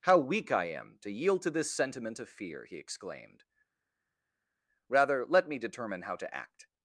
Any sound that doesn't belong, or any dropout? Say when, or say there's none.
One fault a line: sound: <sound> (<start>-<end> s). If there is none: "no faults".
no faults